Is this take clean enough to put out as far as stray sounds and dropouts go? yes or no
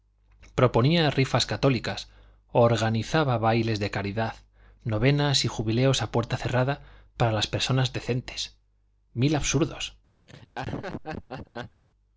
no